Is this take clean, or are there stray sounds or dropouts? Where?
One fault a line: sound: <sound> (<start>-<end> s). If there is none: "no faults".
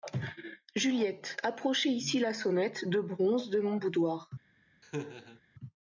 sound: laugh (4.8-5.4 s)